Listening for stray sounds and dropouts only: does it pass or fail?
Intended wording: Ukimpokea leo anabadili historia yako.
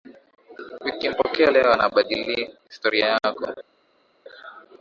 pass